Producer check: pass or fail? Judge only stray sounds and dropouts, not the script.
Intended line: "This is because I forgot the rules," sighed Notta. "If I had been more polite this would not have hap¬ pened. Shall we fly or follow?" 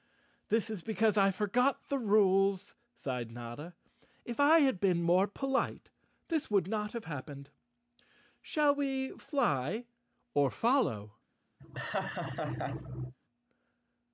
fail